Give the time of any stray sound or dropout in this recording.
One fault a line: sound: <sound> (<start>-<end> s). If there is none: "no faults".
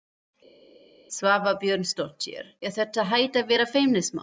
no faults